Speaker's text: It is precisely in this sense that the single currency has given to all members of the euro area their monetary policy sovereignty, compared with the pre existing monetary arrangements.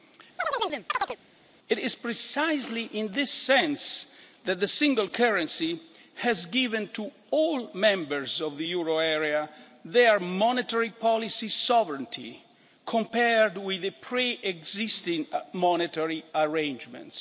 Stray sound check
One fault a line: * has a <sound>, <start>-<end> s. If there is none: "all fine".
* has a chirp, 0.4-1.2 s